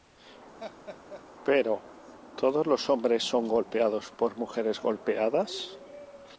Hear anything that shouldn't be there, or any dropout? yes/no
yes